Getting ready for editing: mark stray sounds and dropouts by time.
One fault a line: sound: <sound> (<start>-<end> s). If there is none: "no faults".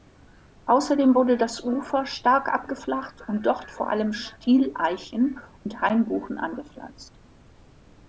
no faults